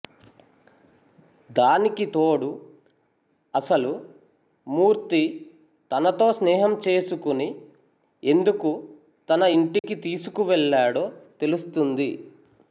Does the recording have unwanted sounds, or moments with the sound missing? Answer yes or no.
yes